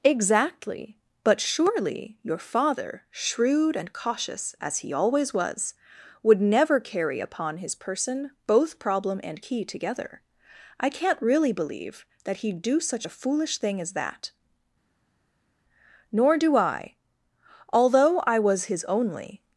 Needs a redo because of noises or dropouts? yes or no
no